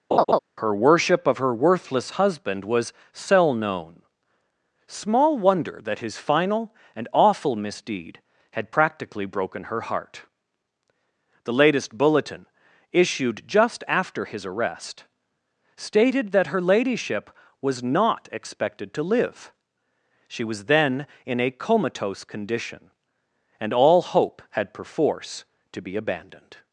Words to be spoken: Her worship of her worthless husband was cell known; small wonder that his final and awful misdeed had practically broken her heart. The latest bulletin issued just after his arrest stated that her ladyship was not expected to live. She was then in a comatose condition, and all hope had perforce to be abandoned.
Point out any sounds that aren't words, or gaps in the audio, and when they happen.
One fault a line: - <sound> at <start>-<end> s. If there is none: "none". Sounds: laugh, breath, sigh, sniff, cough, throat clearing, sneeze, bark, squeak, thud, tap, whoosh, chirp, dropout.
- laugh at 0.1-0.4 s